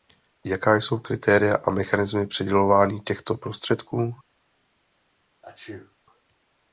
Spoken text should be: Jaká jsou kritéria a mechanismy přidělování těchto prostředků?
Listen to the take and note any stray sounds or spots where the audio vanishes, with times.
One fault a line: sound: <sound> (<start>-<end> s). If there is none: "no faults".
sound: sneeze (5.4-6.0 s)